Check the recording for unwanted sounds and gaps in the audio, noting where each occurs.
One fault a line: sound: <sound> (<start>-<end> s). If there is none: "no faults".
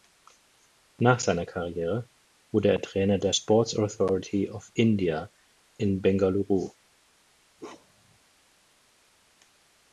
sound: bark (7.6-8.2 s)